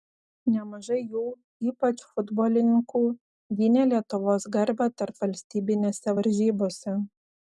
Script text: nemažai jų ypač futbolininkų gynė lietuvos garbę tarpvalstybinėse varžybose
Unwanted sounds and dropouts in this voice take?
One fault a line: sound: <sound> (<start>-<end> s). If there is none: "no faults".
no faults